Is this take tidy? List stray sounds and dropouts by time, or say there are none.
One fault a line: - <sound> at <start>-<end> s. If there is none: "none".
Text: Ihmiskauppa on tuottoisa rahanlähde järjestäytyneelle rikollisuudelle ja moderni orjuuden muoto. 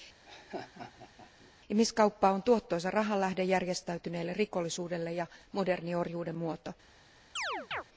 - laugh at 0.2-1.5 s
- chirp at 7.4-7.8 s